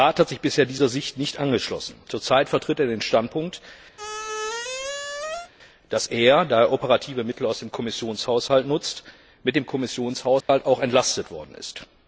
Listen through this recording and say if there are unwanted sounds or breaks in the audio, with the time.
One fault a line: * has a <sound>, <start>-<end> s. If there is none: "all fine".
* has a squeak, 4.0-5.5 s
* has a dropout, 10.4-10.5 s